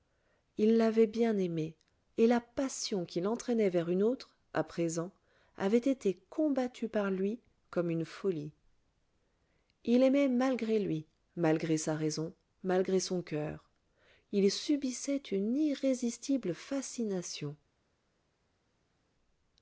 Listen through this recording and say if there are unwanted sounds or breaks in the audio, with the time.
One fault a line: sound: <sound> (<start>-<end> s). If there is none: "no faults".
no faults